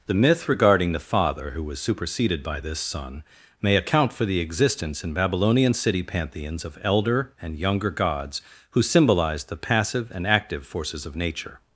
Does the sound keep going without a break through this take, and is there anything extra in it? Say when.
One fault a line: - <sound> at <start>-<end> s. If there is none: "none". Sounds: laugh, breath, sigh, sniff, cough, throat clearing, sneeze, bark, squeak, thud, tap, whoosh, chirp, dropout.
none